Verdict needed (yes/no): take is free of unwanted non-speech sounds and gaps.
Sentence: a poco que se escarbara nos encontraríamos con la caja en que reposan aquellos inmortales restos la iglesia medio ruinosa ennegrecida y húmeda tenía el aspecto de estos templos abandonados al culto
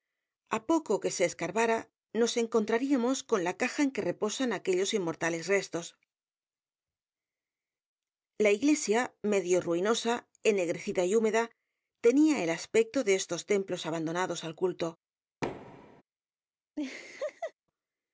no